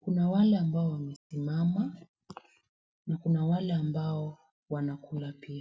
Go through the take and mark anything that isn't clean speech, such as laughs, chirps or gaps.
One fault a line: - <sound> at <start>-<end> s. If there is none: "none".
- dropout at 1.2-1.3 s